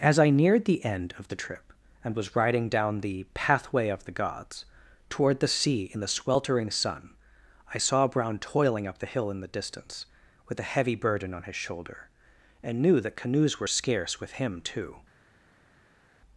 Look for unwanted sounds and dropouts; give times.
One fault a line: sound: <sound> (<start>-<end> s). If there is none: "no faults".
no faults